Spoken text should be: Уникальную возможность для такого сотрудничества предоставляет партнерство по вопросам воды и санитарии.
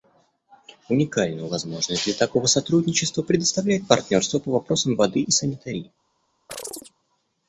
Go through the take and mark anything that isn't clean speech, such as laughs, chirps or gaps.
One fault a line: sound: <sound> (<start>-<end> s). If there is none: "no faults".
sound: chirp (6.5-6.9 s)